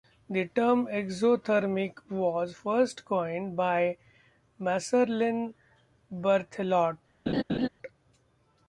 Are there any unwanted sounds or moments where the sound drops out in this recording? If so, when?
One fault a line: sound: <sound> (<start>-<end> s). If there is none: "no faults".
sound: laugh (7.3-7.7 s)